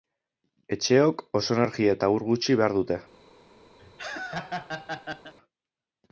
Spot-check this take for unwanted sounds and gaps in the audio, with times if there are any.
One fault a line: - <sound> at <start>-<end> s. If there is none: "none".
- laugh at 3.8-5.3 s